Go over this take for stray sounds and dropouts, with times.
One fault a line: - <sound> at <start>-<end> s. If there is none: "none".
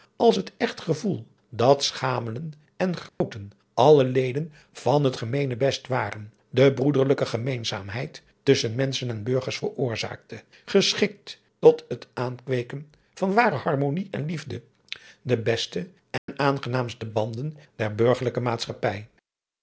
- dropout at 3.1-3.2 s
- dropout at 16.2-16.3 s